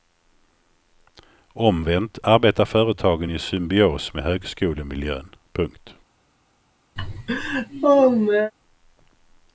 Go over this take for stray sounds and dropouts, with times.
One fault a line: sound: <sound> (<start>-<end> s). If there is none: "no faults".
sound: laugh (7.0-8.5 s)